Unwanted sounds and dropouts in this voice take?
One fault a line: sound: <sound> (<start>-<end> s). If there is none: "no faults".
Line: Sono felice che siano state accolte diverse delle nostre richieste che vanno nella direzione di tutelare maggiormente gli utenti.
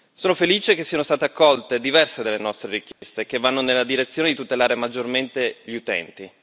sound: dropout (2.9-3.0 s)